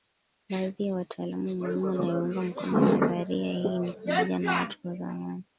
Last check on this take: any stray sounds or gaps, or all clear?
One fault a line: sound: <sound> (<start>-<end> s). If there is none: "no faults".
no faults